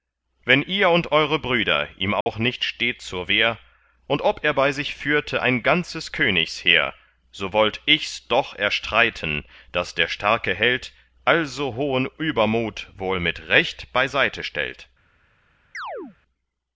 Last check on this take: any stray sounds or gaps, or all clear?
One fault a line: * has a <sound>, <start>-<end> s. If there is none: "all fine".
* has a dropout, 2.2-2.3 s
* has a chirp, 15.7-16.2 s